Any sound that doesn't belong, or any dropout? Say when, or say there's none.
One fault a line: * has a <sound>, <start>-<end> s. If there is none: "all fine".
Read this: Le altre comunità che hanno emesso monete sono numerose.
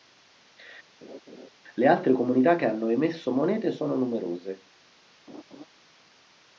* has a laugh, 1.0-1.5 s
* has a laugh, 5.3-5.7 s